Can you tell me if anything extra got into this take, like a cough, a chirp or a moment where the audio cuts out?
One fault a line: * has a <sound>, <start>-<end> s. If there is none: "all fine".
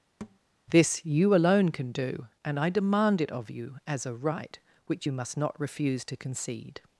* has a thud, 0.2-0.4 s